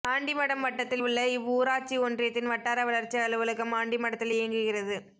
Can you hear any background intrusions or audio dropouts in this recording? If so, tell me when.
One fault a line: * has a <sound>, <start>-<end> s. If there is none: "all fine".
all fine